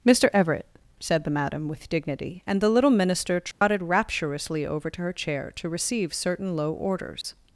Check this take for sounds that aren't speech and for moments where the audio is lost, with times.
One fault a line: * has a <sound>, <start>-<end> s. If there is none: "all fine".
* has a dropout, 3.5-3.6 s
* has a dropout, 7.2-7.2 s